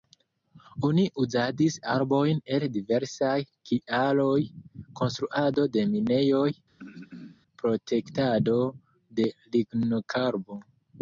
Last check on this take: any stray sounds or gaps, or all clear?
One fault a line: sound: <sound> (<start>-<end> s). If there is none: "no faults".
sound: throat clearing (6.8-7.4 s)